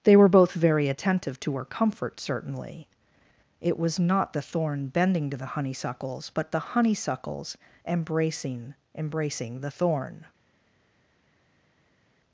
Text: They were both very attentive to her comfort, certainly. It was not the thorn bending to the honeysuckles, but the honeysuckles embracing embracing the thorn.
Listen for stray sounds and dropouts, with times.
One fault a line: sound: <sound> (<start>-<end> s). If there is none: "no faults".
no faults